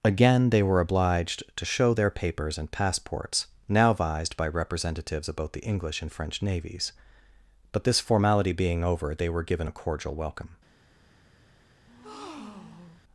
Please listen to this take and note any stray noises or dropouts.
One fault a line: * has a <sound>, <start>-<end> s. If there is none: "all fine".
* has a breath, 11.9-13.0 s